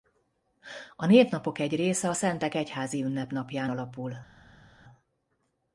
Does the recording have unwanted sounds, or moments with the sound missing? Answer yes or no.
no